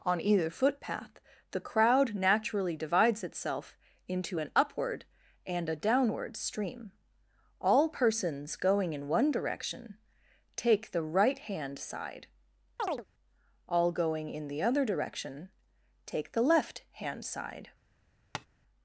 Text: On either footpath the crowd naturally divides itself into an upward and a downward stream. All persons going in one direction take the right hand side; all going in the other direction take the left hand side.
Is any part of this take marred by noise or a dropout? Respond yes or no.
yes